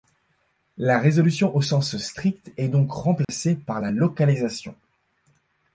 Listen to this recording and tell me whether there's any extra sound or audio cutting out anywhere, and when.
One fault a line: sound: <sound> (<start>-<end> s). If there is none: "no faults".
sound: dropout (3.2-3.3 s)